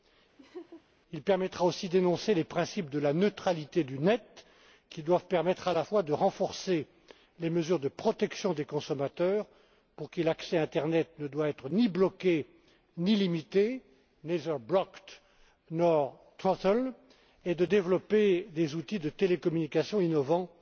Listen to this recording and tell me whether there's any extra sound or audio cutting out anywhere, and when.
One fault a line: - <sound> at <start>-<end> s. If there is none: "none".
- laugh at 0.4-0.8 s